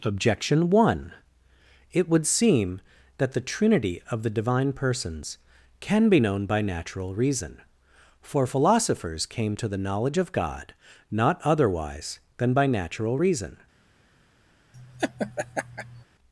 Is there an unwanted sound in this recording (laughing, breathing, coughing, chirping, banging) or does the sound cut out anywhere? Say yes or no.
yes